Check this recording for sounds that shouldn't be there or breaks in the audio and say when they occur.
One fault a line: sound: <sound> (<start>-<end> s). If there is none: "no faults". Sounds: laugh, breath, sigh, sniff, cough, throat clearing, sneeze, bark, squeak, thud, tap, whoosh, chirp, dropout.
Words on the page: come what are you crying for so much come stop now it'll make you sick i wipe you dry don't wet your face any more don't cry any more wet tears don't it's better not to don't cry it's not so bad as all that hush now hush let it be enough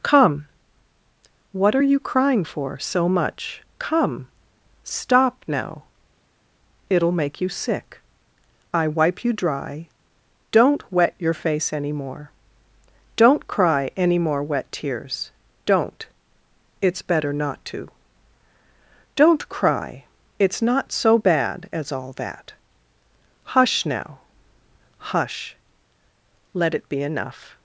no faults